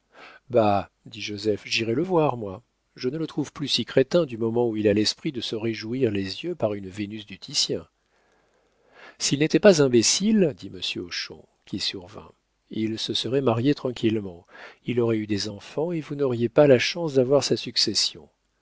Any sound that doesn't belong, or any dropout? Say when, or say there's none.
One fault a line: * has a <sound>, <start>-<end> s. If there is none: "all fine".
all fine